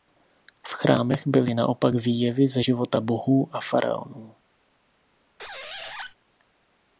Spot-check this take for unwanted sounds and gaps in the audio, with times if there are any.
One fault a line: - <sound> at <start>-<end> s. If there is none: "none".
- squeak at 5.4-6.2 s